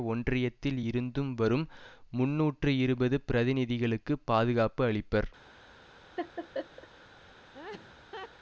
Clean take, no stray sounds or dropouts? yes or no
no